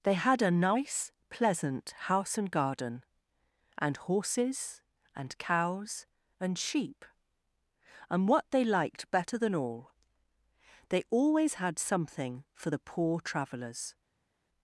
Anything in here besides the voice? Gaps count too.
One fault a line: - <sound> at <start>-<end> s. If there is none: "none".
none